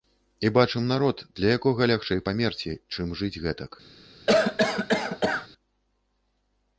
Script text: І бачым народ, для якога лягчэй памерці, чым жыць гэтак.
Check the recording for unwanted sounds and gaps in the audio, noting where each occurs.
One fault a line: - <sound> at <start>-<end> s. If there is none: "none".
- cough at 4.3-5.5 s